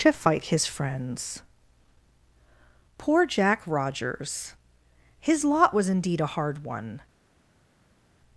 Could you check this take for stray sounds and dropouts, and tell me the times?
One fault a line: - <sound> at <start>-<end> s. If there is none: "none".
none